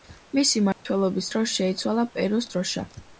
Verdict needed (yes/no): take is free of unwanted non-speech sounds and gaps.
no